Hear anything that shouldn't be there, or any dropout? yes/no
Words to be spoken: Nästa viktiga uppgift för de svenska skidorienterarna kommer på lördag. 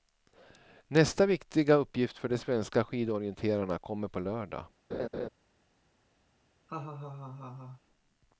yes